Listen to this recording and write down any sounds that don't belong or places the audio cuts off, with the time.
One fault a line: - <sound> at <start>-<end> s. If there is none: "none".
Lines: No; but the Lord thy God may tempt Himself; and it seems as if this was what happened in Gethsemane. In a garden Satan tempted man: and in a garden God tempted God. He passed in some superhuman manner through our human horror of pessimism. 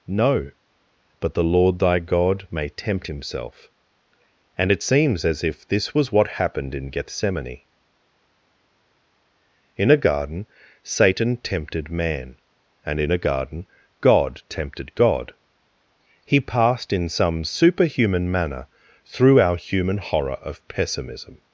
none